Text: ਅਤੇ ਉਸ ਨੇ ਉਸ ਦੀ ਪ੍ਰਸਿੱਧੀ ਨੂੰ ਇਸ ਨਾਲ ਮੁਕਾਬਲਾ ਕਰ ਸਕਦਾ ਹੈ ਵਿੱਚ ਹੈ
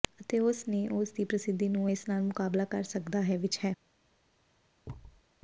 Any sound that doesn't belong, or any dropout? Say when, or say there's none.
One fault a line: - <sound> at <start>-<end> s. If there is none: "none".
- thud at 4.8-5.2 s